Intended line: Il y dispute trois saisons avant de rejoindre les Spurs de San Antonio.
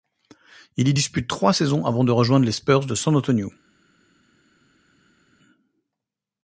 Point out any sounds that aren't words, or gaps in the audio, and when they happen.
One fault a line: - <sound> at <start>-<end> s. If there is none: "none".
none